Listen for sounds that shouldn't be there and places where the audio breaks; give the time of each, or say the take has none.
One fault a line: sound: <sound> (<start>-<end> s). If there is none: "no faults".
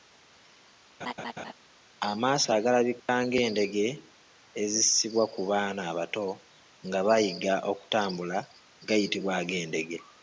sound: laugh (1.0-1.5 s)
sound: dropout (3.0-3.1 s)